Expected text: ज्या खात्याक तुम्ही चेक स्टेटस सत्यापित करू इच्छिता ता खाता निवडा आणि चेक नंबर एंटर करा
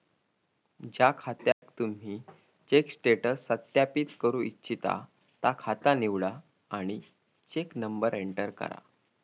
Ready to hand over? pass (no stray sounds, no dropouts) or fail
fail